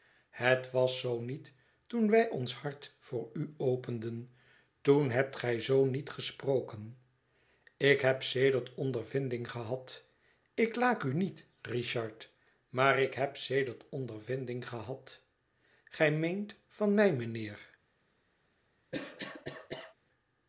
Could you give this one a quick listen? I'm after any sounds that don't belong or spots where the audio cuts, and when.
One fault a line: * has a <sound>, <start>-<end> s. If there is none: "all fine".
* has a cough, 18.9-19.9 s